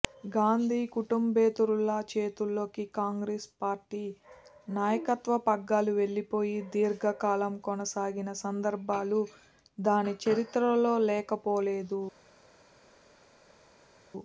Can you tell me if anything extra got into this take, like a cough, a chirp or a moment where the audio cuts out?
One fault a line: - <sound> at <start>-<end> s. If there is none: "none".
none